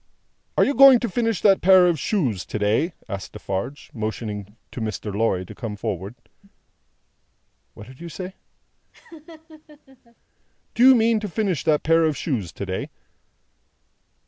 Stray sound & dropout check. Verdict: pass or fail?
fail